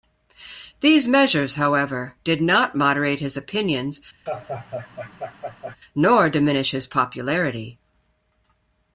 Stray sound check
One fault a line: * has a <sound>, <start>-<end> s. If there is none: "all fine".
* has a laugh, 4.3-5.8 s